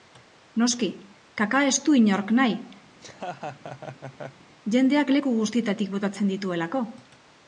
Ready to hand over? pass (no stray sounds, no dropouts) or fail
fail